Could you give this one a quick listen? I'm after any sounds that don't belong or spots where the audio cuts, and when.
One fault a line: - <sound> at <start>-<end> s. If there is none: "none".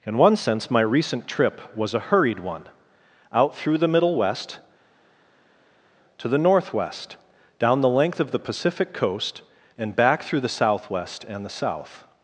none